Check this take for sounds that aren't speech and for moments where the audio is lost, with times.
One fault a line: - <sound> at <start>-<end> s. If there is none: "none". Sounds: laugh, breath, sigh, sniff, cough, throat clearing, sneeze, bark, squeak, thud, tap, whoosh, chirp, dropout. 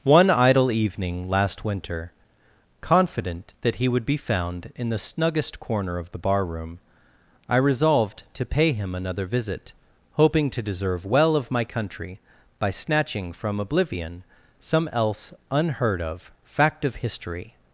none